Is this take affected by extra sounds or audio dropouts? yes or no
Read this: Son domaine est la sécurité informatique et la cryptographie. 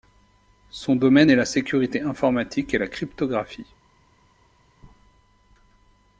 no